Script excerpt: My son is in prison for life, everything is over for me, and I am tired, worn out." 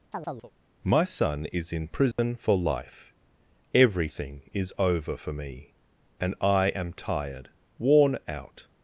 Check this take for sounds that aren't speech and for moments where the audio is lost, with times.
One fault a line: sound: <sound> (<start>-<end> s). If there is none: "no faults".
sound: chirp (0.1-0.5 s)
sound: dropout (2.1-2.2 s)